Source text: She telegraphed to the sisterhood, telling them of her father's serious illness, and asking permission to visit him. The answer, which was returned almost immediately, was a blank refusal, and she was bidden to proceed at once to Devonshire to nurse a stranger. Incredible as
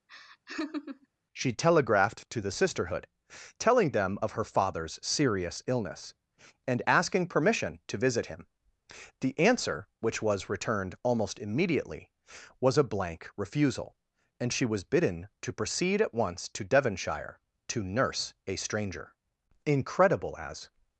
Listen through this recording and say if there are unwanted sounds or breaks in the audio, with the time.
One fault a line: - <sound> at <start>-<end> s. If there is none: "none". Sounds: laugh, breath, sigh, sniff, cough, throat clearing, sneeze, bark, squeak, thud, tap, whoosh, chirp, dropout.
- laugh at 0.1-1.1 s